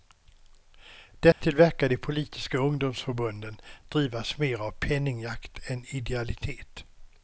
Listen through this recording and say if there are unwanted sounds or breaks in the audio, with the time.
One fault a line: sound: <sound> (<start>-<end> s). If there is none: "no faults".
sound: dropout (1.3-1.4 s)